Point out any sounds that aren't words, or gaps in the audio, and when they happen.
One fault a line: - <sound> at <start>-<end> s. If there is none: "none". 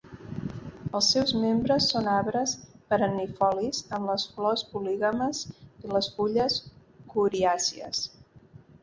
none